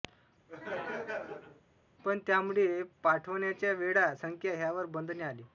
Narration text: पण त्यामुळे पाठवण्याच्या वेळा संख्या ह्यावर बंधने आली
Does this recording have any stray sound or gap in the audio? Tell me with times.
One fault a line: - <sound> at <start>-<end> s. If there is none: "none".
- laugh at 0.5-1.6 s